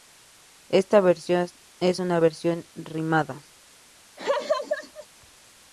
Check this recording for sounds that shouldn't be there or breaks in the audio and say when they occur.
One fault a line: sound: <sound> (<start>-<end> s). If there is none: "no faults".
sound: laugh (4.2-5.1 s)